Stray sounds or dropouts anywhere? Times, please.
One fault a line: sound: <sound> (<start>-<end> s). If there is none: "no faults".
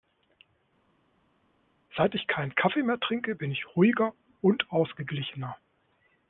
no faults